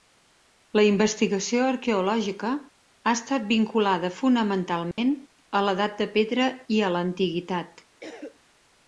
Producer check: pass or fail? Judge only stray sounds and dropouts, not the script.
fail